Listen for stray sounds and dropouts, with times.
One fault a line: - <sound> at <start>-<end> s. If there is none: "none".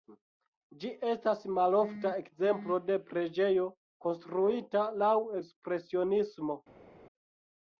none